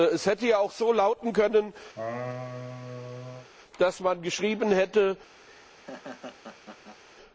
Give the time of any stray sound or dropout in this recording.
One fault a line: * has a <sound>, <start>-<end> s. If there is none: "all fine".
* has a laugh, 1.9-3.5 s
* has a laugh, 5.5-7.0 s